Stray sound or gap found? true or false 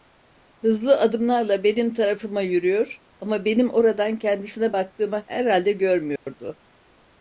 true